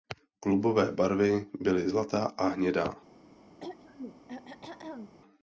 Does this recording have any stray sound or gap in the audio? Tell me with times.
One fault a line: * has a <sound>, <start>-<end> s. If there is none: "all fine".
* has a throat clearing, 3.6-5.1 s